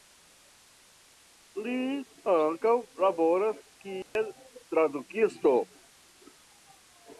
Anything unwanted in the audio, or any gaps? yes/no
yes